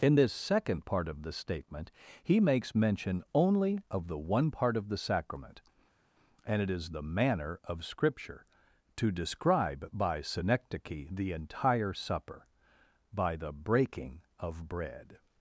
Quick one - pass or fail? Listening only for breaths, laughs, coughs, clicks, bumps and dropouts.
pass